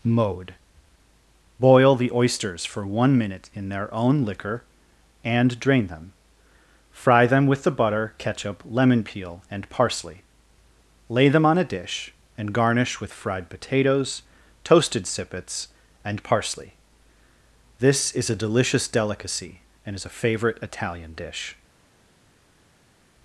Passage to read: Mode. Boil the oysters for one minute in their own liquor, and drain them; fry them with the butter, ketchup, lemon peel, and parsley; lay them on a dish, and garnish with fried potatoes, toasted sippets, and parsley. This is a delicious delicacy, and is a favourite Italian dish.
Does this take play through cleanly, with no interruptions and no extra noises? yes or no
yes